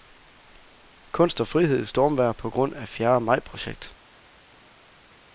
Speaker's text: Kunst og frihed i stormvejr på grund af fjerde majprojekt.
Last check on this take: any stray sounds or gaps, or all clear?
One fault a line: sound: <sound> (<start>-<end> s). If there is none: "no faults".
no faults